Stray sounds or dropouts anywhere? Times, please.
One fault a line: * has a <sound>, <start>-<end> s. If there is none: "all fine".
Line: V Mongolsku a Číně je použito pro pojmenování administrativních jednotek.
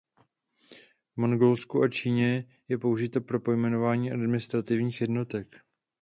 all fine